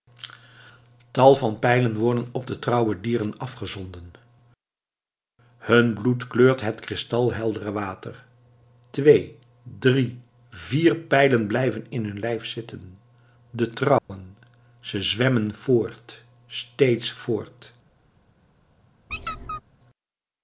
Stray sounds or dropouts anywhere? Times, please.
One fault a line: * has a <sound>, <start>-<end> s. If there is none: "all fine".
* has a dropout, 14.0-14.1 s
* has a squeak, 19.1-19.6 s